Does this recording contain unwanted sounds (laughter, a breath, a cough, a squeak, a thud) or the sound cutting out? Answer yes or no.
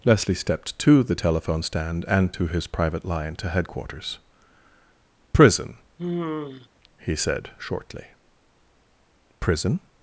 yes